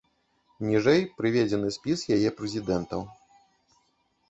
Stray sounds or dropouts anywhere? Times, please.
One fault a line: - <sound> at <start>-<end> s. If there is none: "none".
none